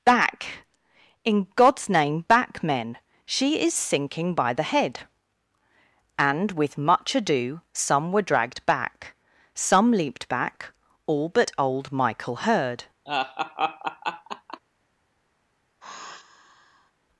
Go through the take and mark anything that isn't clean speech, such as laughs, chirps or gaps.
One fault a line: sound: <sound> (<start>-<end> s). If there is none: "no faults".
sound: laugh (13.1-14.6 s)
sound: sigh (15.8-16.9 s)